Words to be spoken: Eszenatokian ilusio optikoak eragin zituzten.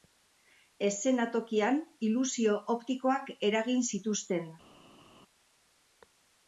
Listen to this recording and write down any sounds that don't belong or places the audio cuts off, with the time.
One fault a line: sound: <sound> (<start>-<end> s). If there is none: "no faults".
no faults